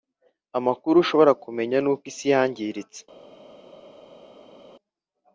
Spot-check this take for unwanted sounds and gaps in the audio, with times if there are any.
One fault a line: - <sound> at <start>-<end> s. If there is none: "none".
none